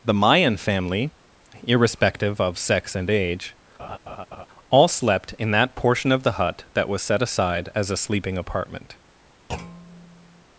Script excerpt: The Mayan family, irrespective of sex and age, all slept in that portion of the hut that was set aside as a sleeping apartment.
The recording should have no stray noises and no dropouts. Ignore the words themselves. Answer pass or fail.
fail